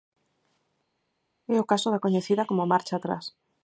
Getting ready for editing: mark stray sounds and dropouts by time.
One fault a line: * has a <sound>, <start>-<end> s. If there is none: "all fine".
all fine